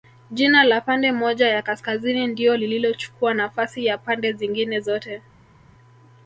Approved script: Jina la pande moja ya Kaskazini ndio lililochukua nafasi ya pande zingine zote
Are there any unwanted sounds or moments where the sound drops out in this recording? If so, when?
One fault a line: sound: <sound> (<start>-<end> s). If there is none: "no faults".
no faults